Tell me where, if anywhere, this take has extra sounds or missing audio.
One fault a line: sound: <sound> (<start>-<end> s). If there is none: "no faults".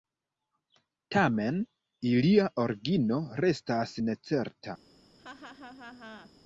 sound: laugh (5.2-6.3 s)